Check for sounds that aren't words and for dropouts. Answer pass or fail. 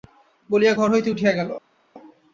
pass